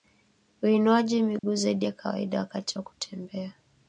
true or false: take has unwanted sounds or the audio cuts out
true